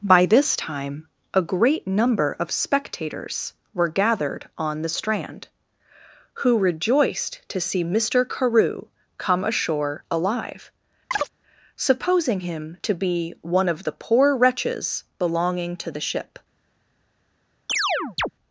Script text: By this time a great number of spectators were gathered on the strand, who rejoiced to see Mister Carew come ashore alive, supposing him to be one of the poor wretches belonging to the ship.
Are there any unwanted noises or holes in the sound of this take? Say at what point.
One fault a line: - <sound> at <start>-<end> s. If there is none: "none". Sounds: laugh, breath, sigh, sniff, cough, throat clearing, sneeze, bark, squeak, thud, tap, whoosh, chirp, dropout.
- chirp at 11.1-11.3 s
- chirp at 17.7-18.3 s